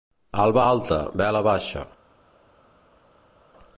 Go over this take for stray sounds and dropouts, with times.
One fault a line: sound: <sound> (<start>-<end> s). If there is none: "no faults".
no faults